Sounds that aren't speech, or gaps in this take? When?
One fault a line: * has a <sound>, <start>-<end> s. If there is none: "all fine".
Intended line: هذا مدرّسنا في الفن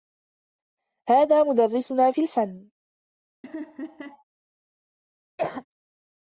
* has a laugh, 3.4-4.2 s
* has a cough, 5.4-5.7 s